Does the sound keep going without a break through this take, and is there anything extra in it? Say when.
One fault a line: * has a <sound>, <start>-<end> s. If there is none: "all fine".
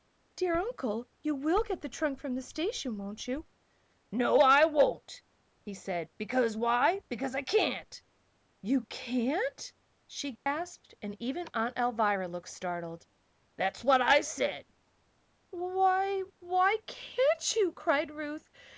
* has a dropout, 10.4-10.5 s